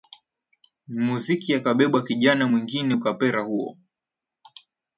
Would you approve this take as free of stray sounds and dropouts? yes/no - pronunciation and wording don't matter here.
yes